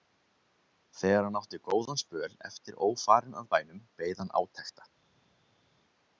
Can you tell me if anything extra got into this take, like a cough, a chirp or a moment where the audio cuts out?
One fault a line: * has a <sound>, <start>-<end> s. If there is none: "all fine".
all fine